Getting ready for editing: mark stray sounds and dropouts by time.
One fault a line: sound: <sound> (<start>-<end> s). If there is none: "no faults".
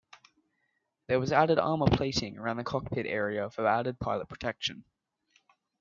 no faults